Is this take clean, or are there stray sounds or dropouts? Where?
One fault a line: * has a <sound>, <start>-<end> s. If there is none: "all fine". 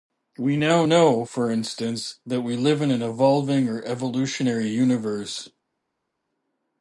all fine